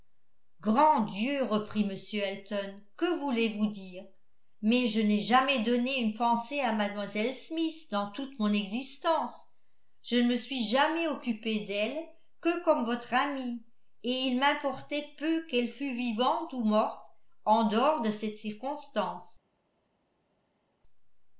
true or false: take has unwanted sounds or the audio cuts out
false